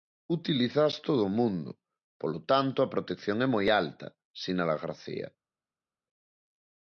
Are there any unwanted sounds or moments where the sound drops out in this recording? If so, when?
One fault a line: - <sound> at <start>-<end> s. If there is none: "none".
none